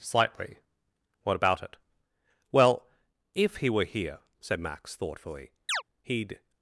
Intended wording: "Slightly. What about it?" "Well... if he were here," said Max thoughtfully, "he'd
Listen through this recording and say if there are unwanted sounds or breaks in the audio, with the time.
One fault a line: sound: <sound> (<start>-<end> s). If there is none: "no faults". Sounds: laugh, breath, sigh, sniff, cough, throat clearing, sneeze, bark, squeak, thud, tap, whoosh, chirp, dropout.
sound: chirp (5.7-5.8 s)